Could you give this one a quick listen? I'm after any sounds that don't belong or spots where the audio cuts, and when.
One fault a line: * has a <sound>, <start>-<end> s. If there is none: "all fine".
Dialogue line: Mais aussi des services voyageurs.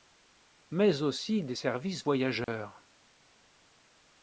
* has a dropout, 2.4-2.5 s